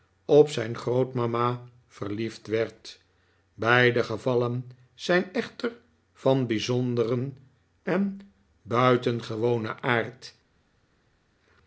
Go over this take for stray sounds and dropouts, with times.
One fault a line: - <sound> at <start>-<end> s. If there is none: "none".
none